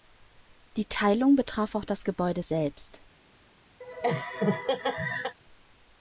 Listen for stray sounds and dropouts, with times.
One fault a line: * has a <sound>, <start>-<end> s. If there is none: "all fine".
* has a laugh, 3.8-5.4 s